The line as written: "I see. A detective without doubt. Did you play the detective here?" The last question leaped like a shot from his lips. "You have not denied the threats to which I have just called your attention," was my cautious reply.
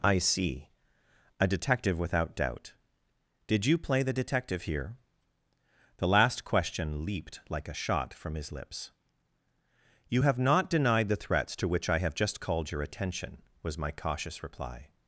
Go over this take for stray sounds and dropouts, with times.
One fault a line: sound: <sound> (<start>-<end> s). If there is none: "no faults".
no faults